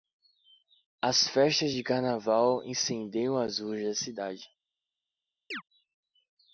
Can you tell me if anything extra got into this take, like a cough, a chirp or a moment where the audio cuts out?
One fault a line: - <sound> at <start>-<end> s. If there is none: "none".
- chirp at 5.5-5.6 s